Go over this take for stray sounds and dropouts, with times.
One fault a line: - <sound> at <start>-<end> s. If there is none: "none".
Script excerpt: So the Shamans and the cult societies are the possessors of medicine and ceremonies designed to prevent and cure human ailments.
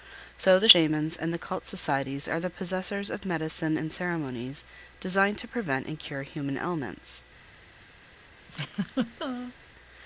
- laugh at 8.5-9.5 s